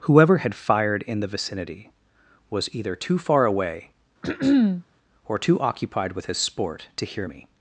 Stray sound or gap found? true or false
true